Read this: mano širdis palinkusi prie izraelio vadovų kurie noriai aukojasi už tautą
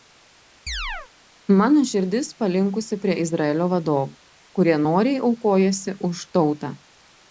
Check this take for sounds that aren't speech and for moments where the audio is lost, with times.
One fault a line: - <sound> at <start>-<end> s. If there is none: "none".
- chirp at 0.7-1.1 s